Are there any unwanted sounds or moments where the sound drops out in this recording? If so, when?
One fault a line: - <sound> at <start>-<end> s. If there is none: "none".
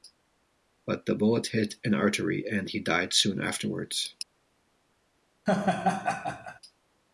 - laugh at 5.5-6.6 s